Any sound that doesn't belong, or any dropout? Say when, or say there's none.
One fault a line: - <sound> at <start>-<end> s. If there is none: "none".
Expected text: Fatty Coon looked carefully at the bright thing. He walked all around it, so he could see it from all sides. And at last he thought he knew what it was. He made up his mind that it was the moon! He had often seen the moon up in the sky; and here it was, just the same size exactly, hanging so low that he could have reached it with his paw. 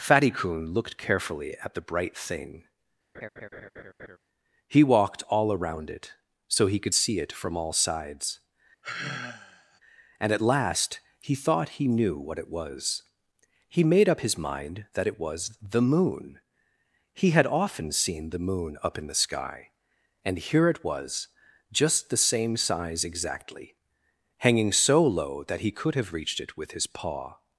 - laugh at 3.1-4.2 s
- sigh at 8.8-9.8 s